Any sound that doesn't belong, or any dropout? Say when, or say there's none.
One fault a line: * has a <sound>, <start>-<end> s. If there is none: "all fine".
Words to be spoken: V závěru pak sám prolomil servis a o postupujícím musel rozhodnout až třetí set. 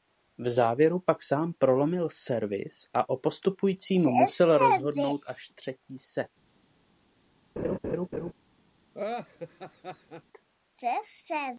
* has a laugh, 7.6-8.3 s
* has a laugh, 8.9-10.2 s